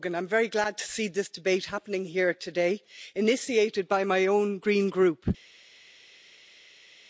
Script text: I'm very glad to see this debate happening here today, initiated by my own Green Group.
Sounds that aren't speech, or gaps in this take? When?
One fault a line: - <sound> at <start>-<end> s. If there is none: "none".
none